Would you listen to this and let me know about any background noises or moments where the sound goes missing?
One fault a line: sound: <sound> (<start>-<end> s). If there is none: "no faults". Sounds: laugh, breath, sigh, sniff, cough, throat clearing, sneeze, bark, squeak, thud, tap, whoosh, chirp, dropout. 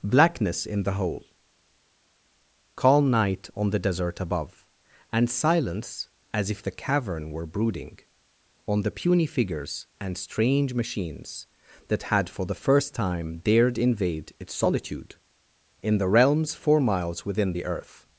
no faults